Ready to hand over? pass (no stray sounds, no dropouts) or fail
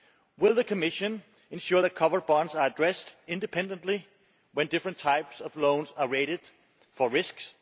pass